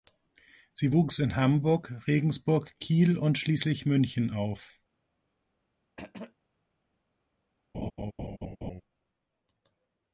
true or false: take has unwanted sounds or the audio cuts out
true